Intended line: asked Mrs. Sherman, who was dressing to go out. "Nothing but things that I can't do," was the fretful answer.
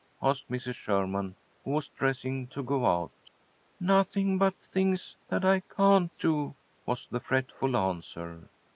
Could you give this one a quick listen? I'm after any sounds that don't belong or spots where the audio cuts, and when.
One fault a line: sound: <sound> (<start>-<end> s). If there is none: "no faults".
no faults